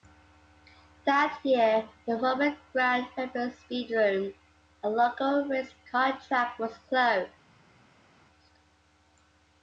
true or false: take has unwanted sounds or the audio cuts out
false